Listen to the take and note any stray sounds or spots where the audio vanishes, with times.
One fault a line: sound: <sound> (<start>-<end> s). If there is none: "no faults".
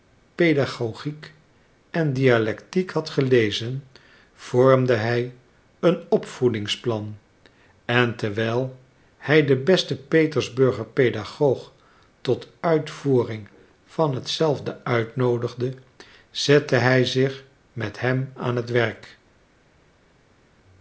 no faults